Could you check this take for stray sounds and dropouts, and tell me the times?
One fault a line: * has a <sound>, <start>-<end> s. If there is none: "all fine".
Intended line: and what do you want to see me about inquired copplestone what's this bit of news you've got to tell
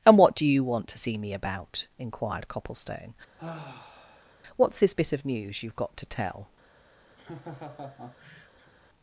* has a sigh, 3.4-4.4 s
* has a laugh, 7.2-8.7 s